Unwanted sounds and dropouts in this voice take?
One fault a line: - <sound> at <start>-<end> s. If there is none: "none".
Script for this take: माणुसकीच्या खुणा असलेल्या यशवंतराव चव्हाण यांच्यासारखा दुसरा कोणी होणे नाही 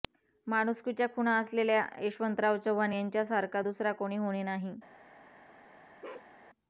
- bark at 6.0-6.3 s